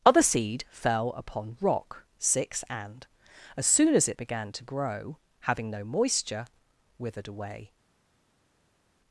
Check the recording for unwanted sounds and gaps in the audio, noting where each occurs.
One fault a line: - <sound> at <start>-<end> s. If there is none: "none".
none